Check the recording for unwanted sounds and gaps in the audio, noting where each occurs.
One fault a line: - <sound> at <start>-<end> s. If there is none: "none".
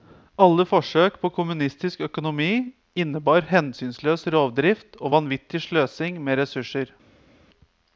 none